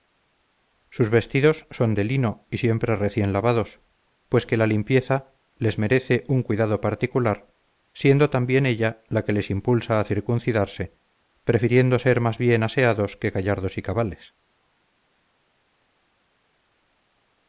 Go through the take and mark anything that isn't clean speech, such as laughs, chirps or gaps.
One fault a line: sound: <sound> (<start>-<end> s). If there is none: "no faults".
no faults